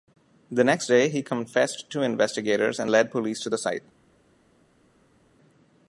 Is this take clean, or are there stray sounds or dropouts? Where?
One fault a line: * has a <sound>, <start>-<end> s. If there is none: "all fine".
all fine